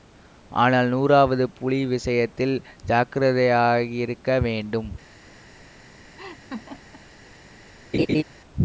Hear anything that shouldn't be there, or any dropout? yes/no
yes